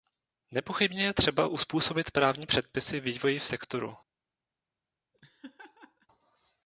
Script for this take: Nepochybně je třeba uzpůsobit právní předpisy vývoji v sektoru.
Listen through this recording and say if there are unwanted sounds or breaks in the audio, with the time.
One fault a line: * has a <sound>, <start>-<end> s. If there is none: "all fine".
* has a laugh, 5.1-6.1 s